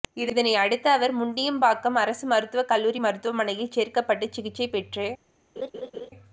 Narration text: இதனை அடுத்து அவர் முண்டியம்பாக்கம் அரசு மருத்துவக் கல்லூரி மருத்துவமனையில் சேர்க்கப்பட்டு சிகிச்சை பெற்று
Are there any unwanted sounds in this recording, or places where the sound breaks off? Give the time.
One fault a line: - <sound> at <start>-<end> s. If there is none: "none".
- laugh at 5.6-6.1 s